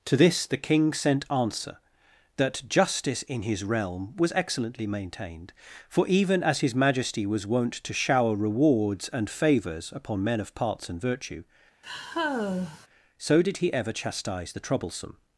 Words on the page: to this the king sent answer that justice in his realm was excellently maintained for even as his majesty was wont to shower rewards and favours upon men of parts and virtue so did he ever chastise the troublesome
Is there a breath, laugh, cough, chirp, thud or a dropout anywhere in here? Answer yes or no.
yes